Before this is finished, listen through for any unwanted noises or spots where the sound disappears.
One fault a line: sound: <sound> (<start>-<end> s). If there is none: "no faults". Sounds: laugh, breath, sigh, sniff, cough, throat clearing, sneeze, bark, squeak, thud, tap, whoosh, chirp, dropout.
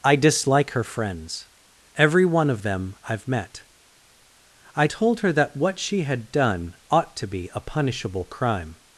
no faults